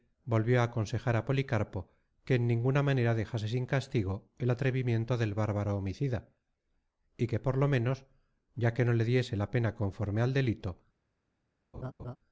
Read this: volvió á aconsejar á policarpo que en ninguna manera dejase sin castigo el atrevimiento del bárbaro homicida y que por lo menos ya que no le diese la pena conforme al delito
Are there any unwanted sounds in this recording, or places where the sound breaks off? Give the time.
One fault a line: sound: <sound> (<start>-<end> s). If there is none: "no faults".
sound: laugh (11.7-12.2 s)